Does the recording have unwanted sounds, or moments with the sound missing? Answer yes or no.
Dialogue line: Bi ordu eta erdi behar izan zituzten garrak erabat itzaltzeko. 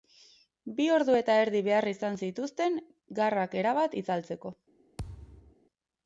yes